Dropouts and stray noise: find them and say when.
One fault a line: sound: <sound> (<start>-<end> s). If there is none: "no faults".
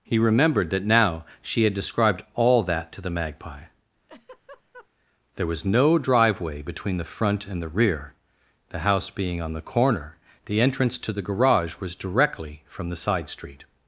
sound: laugh (4.1-4.9 s)